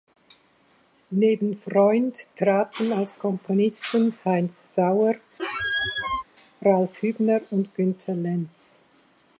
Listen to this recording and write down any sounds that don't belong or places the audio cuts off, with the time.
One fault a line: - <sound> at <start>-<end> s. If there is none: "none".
- squeak at 5.4-6.2 s